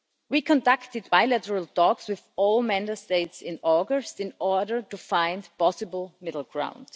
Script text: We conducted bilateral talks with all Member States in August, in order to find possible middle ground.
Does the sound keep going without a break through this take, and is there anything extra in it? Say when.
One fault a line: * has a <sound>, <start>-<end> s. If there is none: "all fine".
all fine